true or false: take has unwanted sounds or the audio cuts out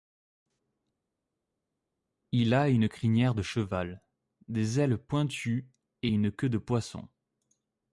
false